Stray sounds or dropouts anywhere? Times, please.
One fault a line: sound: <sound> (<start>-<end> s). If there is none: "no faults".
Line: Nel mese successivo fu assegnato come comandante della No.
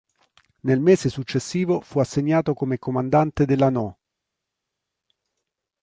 no faults